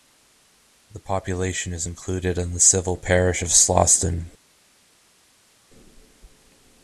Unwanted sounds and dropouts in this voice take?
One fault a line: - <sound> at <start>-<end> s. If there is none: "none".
none